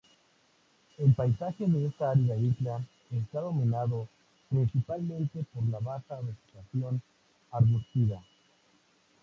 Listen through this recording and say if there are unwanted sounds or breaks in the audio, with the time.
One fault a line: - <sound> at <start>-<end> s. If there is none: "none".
none